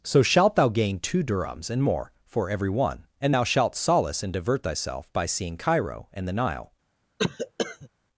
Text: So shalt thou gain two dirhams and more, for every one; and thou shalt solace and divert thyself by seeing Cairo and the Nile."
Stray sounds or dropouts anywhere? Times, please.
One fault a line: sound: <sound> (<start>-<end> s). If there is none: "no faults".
sound: cough (7.2-7.9 s)